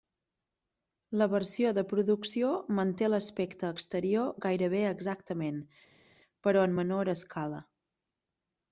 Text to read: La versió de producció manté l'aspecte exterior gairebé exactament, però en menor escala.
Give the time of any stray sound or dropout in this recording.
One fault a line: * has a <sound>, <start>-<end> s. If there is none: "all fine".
all fine